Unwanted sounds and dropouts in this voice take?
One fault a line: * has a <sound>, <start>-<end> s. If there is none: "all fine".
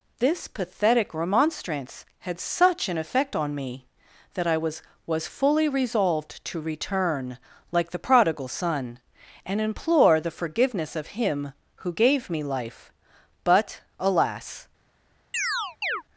* has a chirp, 15.3-16.0 s